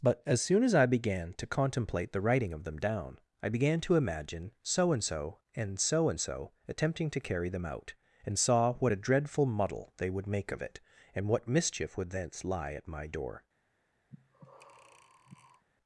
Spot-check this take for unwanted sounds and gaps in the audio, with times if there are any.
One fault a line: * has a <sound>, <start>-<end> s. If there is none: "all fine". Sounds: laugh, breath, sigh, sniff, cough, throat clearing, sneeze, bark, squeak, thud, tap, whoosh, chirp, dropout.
* has a breath, 14.1-15.6 s